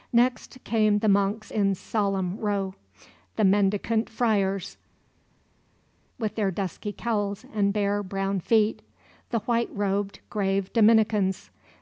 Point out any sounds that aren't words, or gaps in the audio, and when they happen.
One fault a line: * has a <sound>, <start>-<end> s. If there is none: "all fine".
all fine